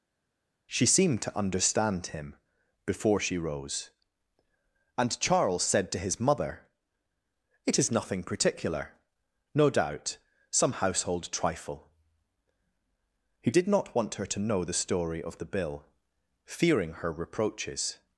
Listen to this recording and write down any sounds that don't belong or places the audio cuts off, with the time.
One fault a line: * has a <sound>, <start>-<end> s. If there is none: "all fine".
all fine